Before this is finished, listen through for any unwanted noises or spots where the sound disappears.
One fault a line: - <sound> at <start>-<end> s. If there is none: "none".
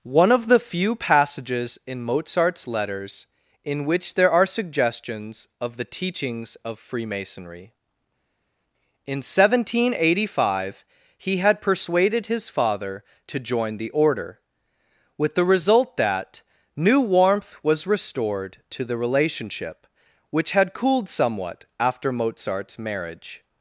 none